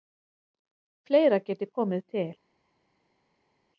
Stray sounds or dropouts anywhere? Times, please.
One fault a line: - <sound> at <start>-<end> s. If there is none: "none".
none